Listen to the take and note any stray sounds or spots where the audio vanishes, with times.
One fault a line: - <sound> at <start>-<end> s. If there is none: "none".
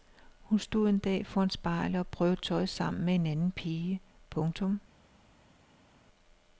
none